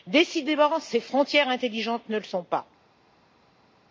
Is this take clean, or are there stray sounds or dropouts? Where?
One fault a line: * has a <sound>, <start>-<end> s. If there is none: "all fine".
all fine